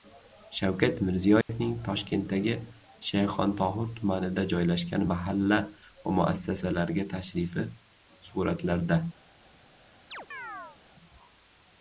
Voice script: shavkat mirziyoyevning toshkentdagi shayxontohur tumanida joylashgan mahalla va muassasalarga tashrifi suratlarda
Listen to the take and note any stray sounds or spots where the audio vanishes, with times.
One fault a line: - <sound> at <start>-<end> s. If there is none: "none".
- dropout at 1.4-1.5 s
- chirp at 10.1-10.8 s